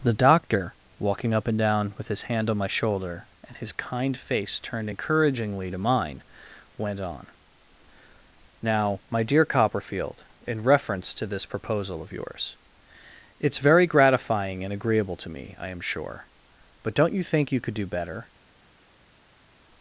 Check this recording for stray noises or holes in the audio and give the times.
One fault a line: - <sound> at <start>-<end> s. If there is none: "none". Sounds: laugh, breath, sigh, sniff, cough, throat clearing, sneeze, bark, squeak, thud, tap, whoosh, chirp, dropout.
none